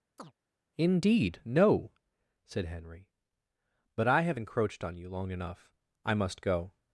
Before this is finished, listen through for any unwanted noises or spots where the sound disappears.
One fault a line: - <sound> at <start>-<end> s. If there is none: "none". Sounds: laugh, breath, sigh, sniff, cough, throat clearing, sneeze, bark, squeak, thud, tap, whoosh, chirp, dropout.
- chirp at 0.2-0.3 s